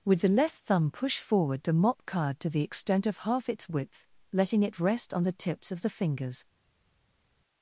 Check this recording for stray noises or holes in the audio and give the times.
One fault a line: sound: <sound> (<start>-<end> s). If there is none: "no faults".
no faults